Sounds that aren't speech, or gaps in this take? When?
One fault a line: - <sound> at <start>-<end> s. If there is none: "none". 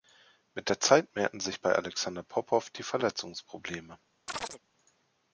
- chirp at 4.3-4.6 s